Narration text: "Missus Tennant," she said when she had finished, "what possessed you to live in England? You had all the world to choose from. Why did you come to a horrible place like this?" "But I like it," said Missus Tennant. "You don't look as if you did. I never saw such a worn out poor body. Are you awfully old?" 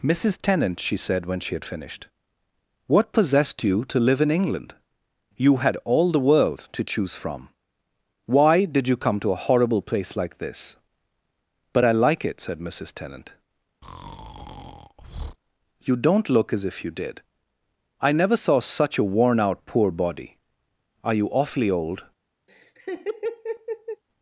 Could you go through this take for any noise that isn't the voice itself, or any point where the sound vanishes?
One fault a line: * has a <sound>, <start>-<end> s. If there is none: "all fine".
* has a breath, 13.8-15.4 s
* has a laugh, 22.5-24.0 s